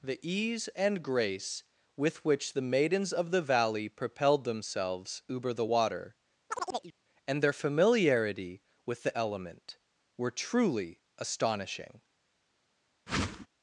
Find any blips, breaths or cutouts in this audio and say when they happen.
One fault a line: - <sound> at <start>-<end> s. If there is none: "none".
- chirp at 6.5-6.9 s
- whoosh at 13.1-13.5 s